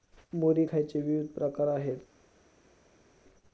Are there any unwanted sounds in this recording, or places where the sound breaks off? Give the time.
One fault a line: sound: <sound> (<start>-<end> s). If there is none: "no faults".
no faults